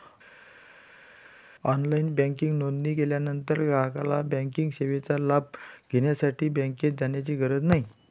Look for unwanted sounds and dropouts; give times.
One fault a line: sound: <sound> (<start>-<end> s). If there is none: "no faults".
no faults